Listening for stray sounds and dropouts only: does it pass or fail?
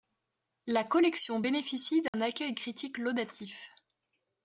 fail